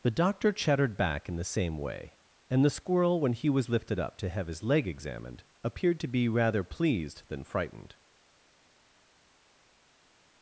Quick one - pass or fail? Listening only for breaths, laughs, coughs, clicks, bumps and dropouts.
pass